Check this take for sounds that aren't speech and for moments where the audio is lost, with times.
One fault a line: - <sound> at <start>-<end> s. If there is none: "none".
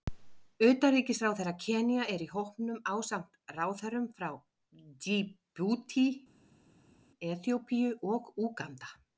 none